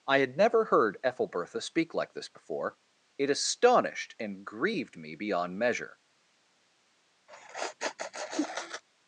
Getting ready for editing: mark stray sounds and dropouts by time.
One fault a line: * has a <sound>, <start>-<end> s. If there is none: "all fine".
* has a sneeze, 7.3-8.8 s